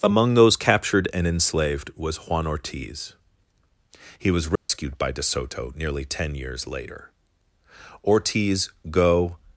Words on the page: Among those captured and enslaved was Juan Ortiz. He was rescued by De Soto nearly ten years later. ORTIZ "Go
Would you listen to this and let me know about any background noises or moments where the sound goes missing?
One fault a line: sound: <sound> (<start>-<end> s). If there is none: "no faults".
sound: dropout (4.6-4.7 s)